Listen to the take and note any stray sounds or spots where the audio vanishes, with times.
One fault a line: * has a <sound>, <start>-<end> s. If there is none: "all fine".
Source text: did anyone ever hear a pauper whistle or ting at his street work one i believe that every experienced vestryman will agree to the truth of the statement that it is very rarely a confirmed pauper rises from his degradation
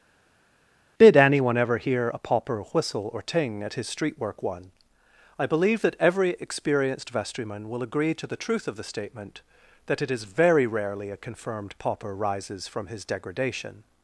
all fine